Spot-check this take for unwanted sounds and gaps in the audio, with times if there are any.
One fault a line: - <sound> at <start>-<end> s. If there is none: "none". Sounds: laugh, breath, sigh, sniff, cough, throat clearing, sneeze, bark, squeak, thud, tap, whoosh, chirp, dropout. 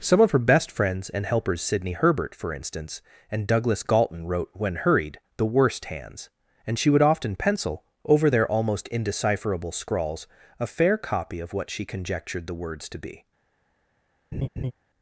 - laugh at 14.3-14.7 s